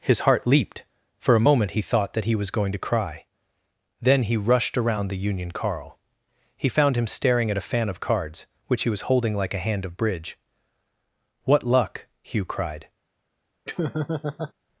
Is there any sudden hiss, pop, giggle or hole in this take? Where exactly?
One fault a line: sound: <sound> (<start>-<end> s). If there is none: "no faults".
sound: laugh (13.6-14.5 s)